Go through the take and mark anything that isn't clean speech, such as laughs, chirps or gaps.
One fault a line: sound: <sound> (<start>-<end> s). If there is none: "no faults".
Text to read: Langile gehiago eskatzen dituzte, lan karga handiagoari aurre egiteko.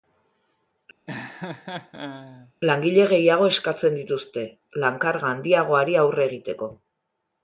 sound: laugh (1.1-2.5 s)